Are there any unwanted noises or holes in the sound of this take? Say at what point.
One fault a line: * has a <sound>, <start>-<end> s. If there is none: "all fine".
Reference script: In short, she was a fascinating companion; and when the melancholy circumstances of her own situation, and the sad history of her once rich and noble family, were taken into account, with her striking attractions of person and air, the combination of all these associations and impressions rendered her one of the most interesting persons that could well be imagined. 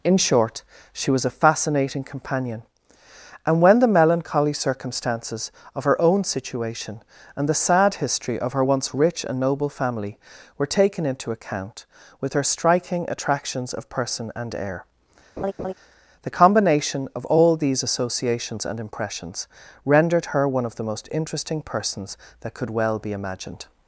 * has a laugh, 15.4-15.7 s